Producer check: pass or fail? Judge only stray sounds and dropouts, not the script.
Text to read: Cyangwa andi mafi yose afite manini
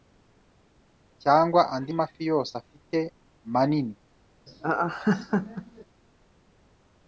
fail